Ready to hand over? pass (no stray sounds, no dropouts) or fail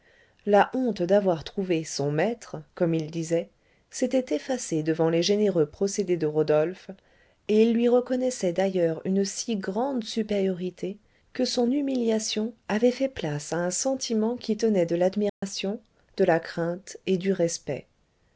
fail